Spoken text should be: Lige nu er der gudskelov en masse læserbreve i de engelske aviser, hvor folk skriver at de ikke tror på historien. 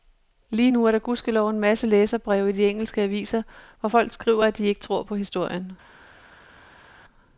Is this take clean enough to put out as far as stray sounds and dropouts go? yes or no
yes